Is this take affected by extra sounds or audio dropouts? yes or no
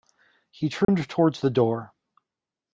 yes